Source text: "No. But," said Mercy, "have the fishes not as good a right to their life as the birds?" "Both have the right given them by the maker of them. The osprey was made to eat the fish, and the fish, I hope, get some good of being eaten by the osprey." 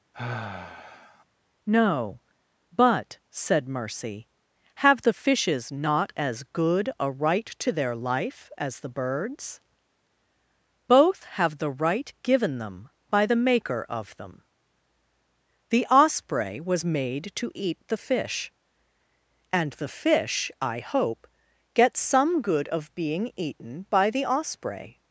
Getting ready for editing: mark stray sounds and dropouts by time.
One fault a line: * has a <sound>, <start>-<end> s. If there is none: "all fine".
* has a sigh, 0.1-1.2 s